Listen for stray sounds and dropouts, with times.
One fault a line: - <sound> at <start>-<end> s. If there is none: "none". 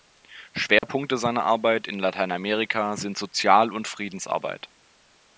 - dropout at 0.8-0.8 s